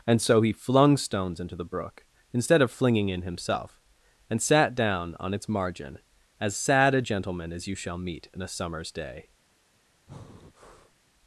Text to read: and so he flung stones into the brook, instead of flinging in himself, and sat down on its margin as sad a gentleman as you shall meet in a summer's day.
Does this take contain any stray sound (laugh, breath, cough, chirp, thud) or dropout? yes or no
yes